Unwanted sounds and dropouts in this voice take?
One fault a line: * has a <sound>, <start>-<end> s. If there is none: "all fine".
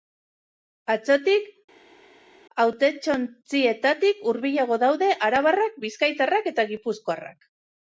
all fine